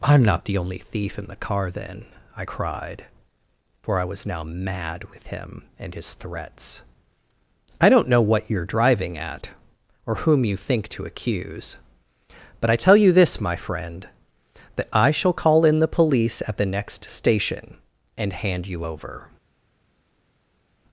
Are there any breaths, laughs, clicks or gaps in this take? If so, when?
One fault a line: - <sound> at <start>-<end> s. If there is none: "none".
none